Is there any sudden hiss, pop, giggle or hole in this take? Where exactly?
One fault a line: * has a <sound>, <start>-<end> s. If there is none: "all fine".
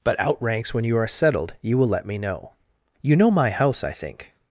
all fine